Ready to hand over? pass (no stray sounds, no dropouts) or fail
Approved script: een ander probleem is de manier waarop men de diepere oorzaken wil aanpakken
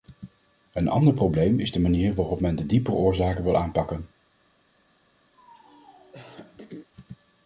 fail